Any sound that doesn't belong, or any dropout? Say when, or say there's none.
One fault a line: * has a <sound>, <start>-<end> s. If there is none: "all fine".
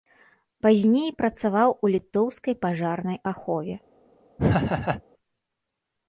* has a laugh, 4.4-5.0 s